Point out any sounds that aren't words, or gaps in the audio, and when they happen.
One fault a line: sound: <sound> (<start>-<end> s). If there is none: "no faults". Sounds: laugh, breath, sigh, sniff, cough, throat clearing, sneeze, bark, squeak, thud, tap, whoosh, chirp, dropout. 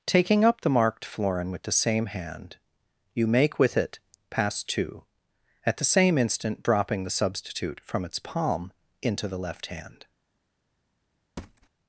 sound: thud (11.4-11.7 s)